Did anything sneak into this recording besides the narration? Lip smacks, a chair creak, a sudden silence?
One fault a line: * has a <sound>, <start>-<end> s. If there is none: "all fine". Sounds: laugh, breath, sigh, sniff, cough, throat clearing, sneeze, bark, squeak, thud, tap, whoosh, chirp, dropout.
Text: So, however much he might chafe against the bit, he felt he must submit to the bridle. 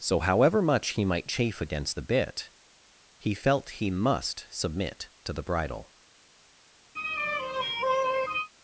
* has a sigh, 6.9-8.5 s